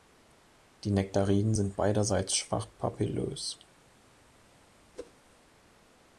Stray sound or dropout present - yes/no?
yes